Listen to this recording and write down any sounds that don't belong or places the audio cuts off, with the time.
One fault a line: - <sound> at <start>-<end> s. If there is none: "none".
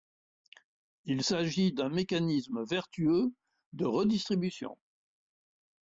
none